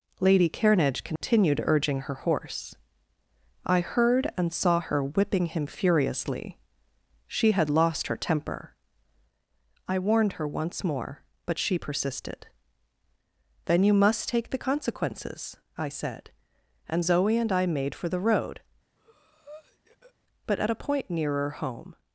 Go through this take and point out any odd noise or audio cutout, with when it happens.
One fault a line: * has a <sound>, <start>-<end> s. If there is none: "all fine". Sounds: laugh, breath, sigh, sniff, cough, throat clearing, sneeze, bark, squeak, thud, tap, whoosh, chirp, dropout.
* has a dropout, 1.2-1.2 s
* has a breath, 19.0-20.1 s